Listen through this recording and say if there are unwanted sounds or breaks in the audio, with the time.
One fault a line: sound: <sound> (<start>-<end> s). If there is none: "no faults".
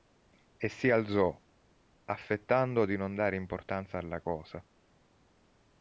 no faults